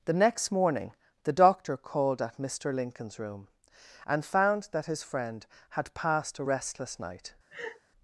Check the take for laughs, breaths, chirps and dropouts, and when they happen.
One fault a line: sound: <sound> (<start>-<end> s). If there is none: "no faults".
sound: laugh (7.5-7.8 s)